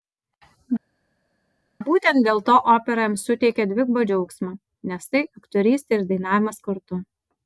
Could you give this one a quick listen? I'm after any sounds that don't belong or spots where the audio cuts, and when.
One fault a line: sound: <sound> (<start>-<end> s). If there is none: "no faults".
no faults